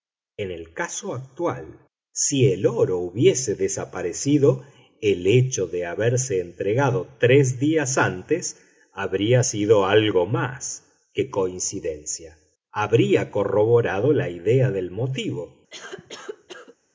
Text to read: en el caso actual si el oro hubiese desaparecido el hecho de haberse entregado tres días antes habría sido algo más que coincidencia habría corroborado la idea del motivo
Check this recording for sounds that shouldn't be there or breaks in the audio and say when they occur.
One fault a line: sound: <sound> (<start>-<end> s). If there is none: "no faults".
sound: cough (15.7-16.8 s)